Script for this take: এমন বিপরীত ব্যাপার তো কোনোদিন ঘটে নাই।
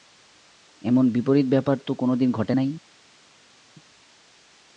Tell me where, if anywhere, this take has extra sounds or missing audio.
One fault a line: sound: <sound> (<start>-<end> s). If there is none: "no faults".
no faults